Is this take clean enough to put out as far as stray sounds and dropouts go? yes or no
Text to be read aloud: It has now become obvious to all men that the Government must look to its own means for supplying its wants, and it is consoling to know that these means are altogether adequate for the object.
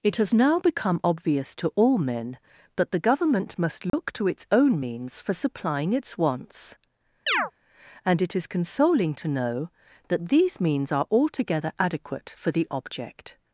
no